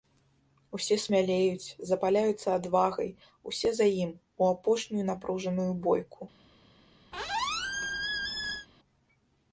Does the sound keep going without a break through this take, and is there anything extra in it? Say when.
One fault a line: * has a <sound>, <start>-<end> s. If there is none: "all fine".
* has a squeak, 7.1-8.7 s